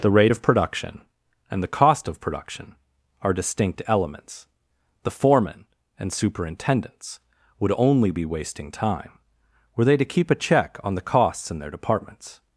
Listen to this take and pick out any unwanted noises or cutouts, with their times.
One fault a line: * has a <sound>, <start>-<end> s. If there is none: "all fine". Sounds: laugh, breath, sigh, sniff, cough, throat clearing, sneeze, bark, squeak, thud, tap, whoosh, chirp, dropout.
all fine